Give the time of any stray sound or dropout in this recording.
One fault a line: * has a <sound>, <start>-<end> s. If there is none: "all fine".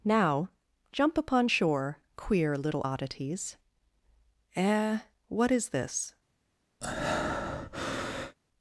* has a breath, 6.8-8.4 s